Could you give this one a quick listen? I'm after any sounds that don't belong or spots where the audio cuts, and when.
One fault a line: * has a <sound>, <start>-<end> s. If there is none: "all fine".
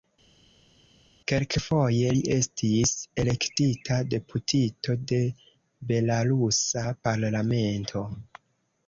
all fine